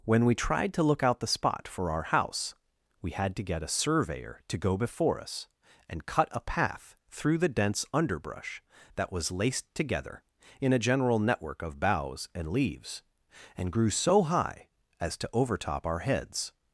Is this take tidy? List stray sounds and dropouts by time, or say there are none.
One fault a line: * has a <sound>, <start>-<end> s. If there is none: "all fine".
all fine